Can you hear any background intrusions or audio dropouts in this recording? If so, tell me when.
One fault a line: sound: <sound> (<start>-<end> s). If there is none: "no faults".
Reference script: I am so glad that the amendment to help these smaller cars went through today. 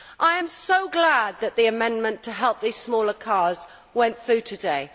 no faults